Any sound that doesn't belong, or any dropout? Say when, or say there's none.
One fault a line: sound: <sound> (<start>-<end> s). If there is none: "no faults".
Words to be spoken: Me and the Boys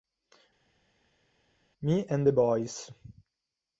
no faults